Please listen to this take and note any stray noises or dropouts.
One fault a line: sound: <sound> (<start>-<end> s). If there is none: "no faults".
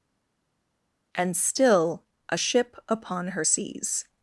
no faults